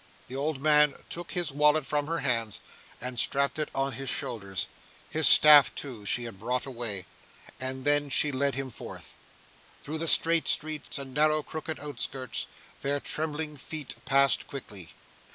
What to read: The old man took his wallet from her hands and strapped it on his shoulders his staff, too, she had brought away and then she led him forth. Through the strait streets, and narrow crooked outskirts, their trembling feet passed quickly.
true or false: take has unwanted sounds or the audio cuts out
true